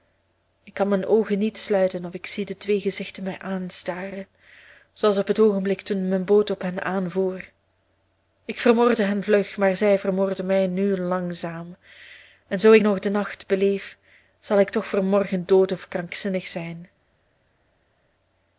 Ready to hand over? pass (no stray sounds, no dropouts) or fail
pass